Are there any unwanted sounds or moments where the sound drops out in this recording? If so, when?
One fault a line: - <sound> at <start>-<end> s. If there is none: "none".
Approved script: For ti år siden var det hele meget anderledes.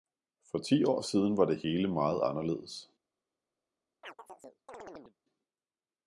- chirp at 4.0-5.2 s